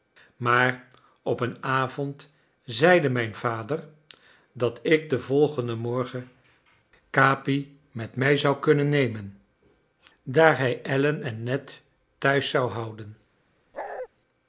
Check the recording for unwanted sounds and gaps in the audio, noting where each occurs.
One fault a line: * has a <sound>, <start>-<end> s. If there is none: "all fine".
* has a bark, 13.7-14.1 s